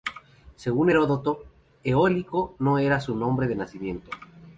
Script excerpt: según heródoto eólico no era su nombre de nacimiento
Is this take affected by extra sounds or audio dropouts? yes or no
no